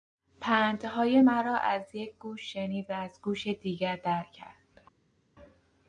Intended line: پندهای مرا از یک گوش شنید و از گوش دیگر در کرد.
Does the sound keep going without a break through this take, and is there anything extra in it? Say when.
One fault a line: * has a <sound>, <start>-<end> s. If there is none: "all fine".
all fine